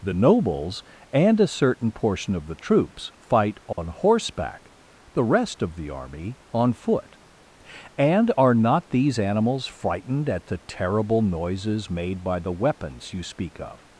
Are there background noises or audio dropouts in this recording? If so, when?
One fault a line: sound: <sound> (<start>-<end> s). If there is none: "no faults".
sound: dropout (3.7-3.8 s)